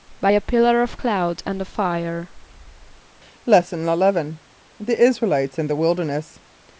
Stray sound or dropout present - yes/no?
no